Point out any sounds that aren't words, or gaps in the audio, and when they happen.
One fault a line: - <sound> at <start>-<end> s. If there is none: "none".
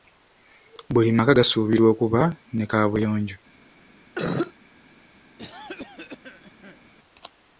- cough at 4.2-4.5 s
- cough at 5.4-6.9 s